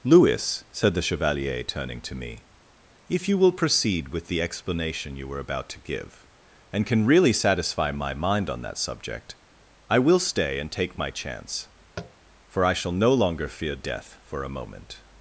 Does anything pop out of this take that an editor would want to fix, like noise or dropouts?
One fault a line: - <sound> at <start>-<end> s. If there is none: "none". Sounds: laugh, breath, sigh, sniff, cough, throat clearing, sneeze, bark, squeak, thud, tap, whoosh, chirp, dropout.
- tap at 12.0-12.1 s